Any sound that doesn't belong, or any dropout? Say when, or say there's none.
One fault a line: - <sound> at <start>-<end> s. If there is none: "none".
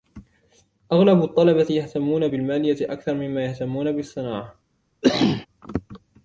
- cough at 5.0-5.5 s